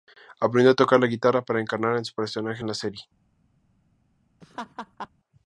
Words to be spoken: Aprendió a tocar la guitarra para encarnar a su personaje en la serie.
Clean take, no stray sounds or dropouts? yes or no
no